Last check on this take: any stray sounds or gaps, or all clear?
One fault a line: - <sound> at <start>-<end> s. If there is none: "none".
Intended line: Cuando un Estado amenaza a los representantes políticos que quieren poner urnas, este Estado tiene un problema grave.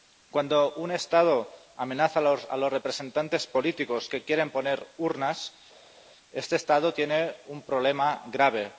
none